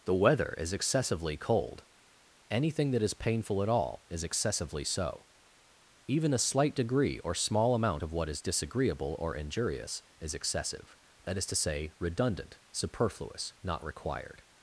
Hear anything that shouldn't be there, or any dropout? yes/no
no